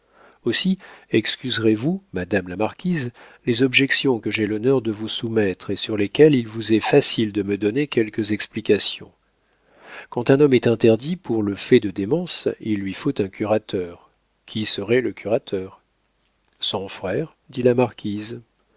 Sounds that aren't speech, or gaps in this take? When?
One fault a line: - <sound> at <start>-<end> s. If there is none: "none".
none